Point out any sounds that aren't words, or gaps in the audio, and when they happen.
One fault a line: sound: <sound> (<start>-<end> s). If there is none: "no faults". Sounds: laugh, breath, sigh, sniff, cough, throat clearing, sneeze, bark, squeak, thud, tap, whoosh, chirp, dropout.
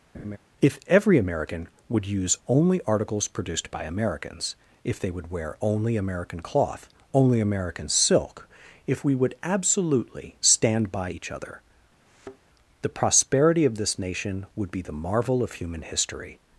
sound: laugh (0.1-0.4 s)
sound: thud (12.1-12.4 s)